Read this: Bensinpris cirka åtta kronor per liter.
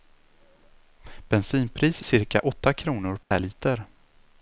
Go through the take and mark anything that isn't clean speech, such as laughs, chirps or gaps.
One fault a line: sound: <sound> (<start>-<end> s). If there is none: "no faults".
sound: dropout (3.2-3.3 s)